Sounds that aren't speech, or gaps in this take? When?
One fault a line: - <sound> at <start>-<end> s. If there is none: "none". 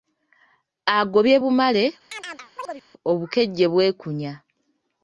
- chirp at 2.1-2.8 s